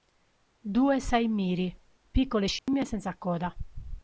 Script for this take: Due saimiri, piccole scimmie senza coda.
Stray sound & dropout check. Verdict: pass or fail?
fail